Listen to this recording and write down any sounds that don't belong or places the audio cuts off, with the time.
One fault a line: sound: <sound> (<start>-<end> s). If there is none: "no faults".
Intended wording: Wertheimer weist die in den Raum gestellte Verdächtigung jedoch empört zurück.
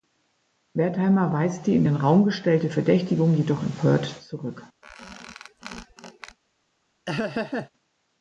sound: squeak (4.8-6.4 s)
sound: laugh (7.1-7.7 s)